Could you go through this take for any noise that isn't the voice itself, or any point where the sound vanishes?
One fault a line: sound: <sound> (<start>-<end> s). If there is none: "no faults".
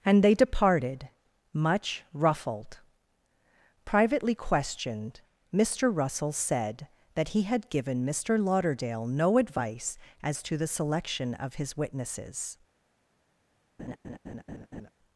sound: laugh (13.8-14.9 s)